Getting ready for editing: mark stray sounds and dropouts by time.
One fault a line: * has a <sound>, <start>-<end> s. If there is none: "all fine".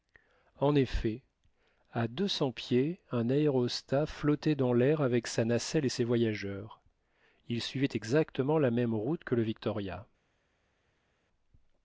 all fine